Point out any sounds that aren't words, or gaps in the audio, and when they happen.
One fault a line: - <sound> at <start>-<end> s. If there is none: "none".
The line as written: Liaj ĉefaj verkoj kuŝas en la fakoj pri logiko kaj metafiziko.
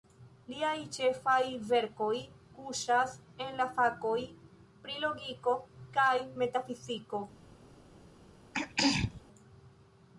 - throat clearing at 8.5-9.2 s